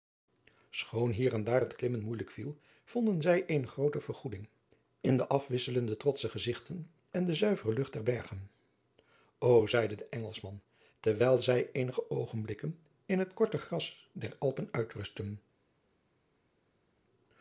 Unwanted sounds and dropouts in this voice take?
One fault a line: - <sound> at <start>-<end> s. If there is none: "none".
none